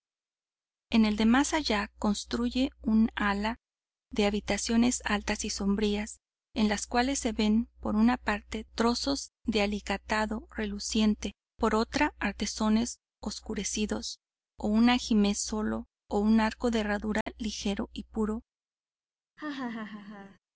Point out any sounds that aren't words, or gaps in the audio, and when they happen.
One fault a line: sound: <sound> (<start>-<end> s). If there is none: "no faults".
sound: dropout (17.2-17.3 s)
sound: laugh (19.4-20.4 s)